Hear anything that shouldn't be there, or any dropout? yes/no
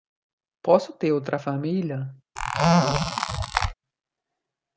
yes